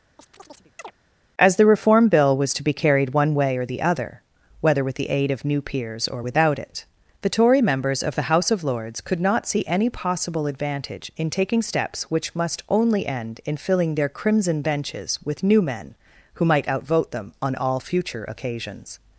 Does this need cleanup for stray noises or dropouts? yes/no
yes